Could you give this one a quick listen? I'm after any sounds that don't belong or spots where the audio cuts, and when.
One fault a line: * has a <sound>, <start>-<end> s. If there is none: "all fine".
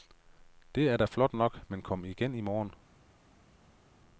all fine